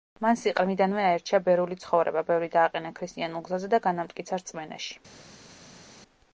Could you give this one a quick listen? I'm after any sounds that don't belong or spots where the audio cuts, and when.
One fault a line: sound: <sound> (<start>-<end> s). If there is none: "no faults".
no faults